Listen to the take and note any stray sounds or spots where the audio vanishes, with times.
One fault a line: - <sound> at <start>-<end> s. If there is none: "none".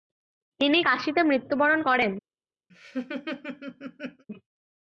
- laugh at 2.7-4.2 s